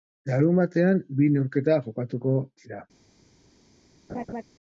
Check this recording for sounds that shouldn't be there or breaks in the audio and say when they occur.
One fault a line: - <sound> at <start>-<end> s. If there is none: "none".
- laugh at 4.1-4.4 s